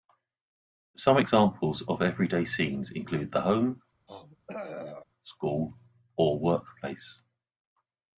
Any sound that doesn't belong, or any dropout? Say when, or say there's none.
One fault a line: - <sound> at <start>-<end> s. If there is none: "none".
- throat clearing at 4.1-5.0 s